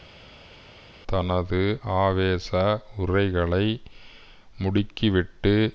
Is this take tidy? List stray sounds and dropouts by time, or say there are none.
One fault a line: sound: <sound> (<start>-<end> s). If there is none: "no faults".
no faults